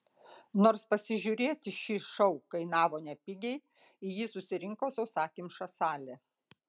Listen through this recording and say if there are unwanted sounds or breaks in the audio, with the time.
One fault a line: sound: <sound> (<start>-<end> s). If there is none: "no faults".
no faults